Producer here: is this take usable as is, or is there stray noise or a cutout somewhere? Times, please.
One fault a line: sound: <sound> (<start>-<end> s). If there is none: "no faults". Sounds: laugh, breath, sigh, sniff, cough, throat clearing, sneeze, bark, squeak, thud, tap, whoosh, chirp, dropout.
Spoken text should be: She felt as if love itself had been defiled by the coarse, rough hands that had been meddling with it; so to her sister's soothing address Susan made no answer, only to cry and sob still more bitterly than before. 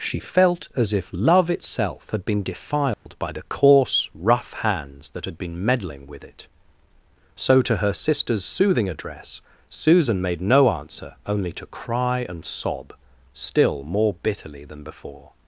sound: dropout (2.9-3.1 s)